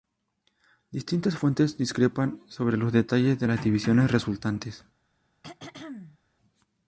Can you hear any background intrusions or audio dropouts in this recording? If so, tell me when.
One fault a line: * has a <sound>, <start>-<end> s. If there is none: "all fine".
* has a throat clearing, 5.4-6.2 s